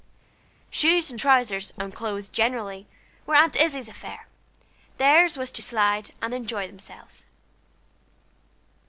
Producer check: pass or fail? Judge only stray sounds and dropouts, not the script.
pass